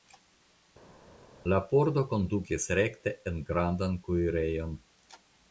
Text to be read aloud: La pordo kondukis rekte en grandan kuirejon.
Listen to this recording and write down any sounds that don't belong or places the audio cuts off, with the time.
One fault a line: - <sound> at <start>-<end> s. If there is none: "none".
none